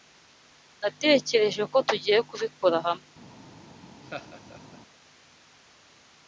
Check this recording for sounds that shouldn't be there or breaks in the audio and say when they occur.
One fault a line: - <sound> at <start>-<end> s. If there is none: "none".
- laugh at 4.0-4.8 s